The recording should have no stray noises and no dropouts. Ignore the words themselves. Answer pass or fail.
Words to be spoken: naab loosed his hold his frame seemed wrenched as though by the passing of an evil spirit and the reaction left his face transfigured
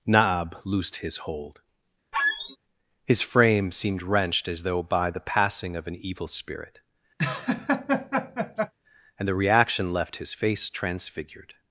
fail